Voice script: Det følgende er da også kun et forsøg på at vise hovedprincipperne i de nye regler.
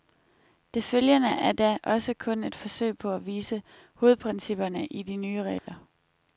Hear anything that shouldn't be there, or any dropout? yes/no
yes